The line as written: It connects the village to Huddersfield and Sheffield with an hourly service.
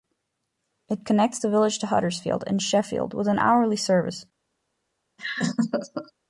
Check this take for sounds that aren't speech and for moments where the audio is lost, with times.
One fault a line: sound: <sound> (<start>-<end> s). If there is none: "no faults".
sound: laugh (5.2-6.1 s)